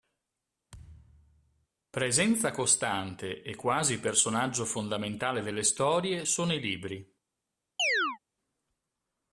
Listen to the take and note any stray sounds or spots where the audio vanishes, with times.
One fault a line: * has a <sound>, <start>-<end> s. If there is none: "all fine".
* has a thud, 0.7-1.7 s
* has a chirp, 7.8-8.2 s